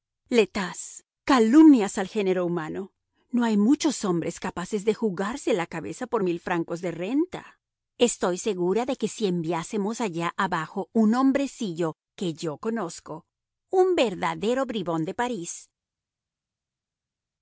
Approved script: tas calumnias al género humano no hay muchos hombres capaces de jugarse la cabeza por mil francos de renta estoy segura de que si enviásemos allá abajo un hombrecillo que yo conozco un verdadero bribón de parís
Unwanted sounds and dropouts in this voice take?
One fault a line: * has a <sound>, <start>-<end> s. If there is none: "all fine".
all fine